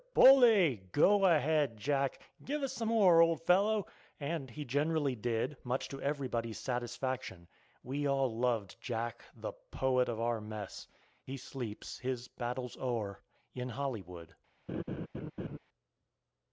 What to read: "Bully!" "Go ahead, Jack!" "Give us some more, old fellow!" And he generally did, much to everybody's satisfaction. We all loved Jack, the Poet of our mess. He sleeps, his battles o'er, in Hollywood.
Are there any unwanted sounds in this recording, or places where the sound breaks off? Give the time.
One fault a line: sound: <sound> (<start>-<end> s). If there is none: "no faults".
sound: laugh (14.7-15.6 s)